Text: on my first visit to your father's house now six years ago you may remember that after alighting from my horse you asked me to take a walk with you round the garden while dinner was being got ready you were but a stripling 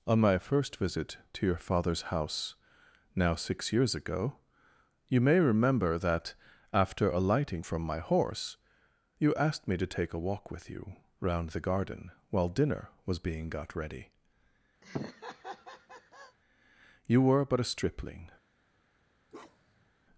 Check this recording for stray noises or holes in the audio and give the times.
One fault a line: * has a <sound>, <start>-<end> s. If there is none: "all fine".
* has a laugh, 14.8-16.4 s
* has a bark, 19.3-19.9 s